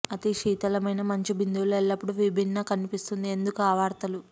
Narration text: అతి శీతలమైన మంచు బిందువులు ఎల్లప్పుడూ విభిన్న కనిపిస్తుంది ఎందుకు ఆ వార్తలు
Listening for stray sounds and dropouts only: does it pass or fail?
pass